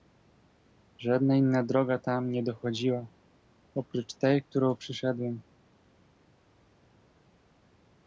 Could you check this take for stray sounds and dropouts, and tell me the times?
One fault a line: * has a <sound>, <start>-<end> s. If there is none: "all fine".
all fine